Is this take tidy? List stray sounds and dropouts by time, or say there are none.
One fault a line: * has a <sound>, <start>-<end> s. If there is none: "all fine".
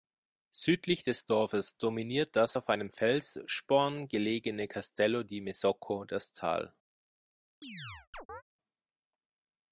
* has a chirp, 7.6-8.4 s